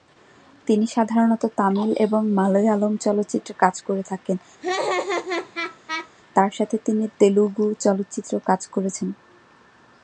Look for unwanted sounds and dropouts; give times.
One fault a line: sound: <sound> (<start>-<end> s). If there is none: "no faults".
sound: laugh (4.6-6.1 s)